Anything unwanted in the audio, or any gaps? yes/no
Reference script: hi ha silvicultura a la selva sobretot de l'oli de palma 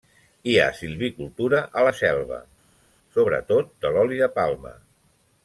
no